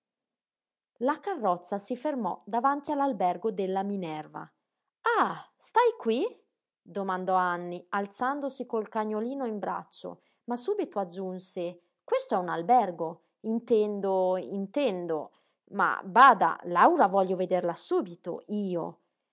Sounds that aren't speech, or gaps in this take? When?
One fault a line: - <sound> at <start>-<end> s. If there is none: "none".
none